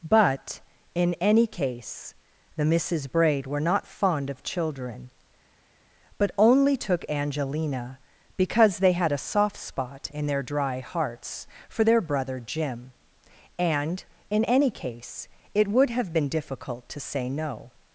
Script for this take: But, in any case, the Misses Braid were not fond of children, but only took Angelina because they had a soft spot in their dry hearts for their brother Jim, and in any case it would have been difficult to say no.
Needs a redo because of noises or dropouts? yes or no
no